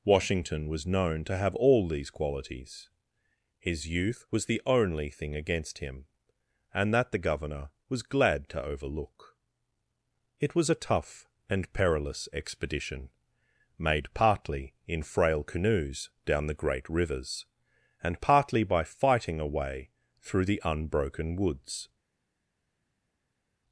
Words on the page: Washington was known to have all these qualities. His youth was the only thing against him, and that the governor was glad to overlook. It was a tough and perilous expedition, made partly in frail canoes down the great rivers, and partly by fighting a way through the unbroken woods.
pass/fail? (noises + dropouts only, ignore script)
pass